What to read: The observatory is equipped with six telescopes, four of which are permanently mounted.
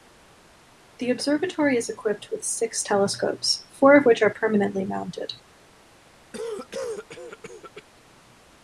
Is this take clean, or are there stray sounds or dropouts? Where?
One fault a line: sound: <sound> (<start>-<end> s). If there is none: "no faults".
sound: cough (6.3-7.8 s)